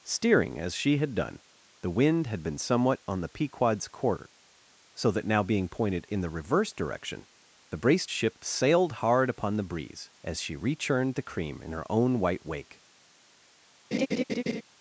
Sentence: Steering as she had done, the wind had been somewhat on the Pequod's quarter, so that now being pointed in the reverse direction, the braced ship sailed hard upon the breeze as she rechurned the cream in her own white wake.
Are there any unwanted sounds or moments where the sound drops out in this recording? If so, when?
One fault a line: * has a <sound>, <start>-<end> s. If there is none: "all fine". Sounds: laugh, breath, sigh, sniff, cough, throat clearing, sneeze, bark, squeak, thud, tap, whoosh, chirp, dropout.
* has a laugh, 13.9-14.6 s